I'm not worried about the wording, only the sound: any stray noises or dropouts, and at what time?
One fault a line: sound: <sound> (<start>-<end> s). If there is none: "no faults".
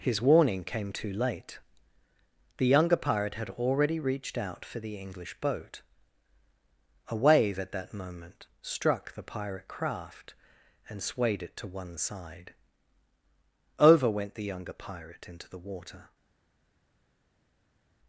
no faults